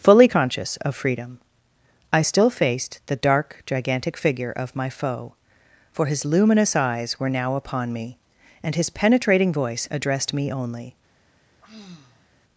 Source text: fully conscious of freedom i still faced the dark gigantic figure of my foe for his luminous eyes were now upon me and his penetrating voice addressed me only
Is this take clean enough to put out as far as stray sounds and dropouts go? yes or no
no